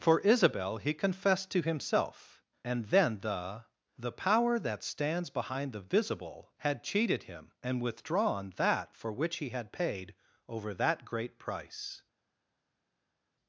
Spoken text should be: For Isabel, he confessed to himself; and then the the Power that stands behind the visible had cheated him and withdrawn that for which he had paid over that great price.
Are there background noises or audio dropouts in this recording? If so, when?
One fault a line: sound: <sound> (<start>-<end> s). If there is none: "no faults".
no faults